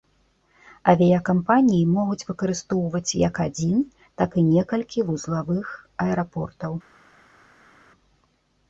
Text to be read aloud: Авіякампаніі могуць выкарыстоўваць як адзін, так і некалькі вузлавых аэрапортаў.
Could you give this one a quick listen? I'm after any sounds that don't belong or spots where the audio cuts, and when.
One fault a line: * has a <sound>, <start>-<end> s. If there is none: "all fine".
all fine